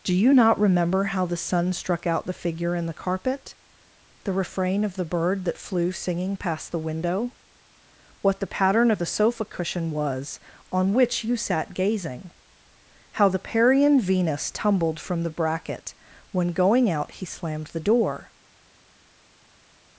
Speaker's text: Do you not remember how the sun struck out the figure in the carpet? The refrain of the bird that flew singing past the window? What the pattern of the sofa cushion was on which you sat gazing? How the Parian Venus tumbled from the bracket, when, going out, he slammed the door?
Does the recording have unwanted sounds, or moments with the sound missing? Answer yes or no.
no